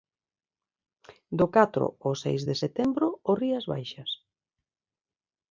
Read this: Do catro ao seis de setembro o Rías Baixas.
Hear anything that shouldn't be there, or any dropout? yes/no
no